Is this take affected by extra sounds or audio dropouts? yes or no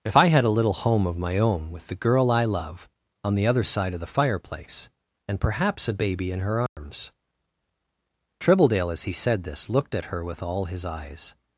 yes